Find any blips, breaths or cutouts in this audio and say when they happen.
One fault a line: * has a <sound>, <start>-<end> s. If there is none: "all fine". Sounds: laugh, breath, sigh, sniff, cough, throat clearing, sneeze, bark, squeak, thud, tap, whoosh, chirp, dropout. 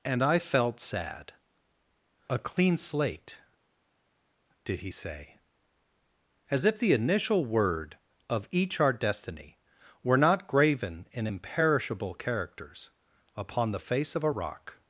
all fine